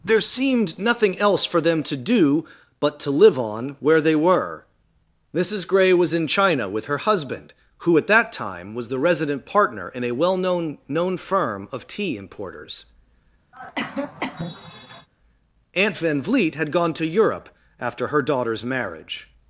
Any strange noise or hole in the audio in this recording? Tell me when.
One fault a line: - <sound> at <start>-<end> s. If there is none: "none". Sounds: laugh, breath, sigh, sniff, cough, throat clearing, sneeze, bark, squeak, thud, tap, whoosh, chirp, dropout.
- cough at 13.5-15.1 s